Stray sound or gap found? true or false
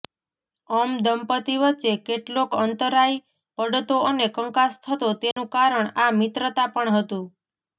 true